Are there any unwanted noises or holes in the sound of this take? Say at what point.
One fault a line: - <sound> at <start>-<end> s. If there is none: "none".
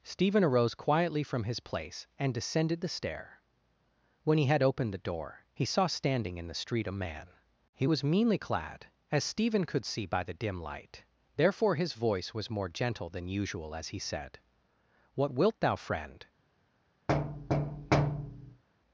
- thud at 17.1-18.6 s